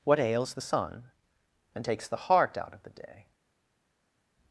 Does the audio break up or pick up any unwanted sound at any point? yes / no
no